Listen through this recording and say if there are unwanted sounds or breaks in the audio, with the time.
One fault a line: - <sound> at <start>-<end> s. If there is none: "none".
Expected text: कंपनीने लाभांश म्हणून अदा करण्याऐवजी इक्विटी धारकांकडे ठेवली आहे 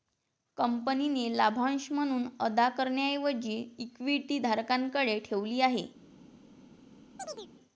- chirp at 7.2-7.5 s